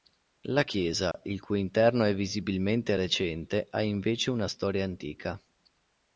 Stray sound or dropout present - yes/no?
yes